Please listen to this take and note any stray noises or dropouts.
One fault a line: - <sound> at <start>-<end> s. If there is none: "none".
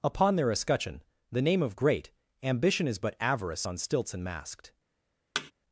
- thud at 5.3-5.5 s